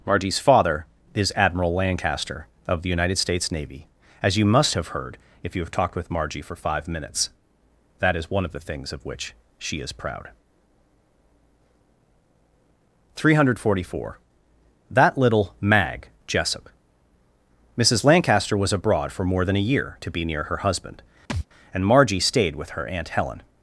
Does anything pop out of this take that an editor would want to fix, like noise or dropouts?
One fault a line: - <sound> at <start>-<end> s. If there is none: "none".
- thud at 21.3-21.5 s